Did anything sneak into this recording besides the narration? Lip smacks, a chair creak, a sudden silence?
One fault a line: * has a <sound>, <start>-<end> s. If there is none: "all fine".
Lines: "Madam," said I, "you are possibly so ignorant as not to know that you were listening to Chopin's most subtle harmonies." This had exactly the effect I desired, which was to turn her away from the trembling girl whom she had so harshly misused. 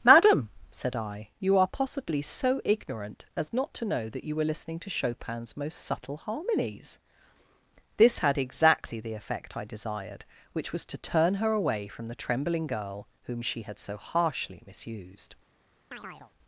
* has a chirp, 15.9-16.3 s